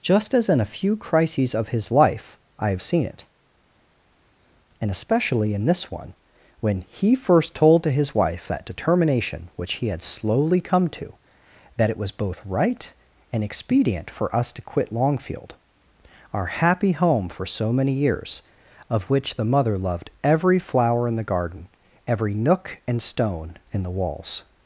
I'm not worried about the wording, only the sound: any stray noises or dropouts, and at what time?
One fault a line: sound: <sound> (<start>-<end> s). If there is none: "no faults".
no faults